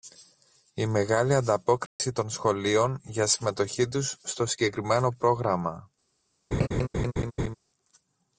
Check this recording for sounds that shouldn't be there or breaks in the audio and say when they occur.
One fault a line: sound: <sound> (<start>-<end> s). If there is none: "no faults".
sound: dropout (1.9-2.0 s)
sound: laugh (6.5-7.6 s)